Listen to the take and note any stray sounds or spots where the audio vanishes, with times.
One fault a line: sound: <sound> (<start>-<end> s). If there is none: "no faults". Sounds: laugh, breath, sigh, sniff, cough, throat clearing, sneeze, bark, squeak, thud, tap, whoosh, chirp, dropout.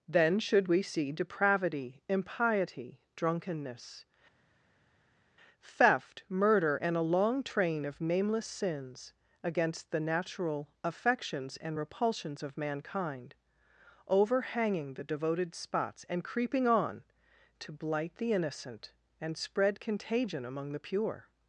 no faults